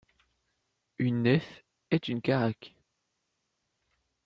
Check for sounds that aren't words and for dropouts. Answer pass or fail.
pass